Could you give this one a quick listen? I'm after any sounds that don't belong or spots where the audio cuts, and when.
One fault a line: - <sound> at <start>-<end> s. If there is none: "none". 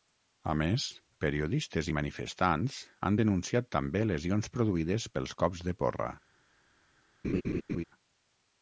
- laugh at 7.2-7.8 s